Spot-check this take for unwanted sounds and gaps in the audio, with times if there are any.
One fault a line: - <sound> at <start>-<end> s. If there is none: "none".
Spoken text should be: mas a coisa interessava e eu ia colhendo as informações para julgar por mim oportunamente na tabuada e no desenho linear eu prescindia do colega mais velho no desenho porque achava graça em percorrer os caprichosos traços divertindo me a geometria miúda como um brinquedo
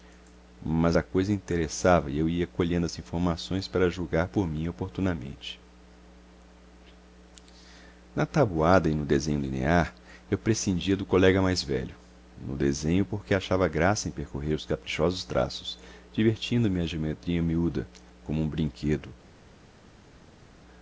none